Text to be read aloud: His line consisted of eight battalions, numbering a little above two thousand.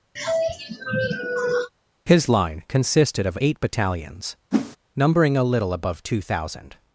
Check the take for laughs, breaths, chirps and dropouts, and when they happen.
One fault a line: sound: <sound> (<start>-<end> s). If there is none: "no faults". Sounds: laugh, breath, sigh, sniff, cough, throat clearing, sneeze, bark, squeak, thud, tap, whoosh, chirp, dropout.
sound: sigh (0.2-1.7 s)
sound: whoosh (4.5-4.8 s)